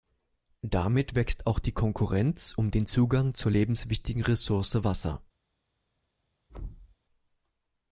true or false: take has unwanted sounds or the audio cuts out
true